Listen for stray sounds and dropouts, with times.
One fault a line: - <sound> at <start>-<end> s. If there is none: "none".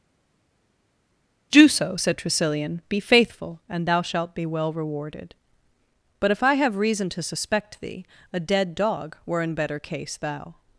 none